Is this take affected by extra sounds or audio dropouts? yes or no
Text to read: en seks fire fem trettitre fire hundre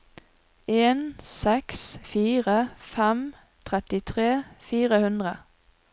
no